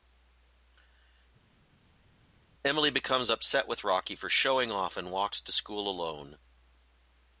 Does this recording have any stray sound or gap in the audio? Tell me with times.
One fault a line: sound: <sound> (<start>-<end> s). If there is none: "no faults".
no faults